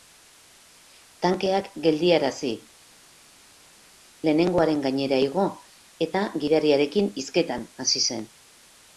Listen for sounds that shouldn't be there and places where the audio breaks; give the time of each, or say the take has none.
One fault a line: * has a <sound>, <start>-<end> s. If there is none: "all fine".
all fine